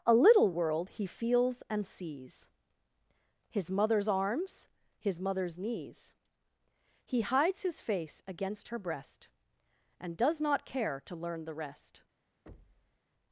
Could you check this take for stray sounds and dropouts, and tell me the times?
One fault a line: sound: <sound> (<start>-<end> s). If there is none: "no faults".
sound: thud (12.5-13.0 s)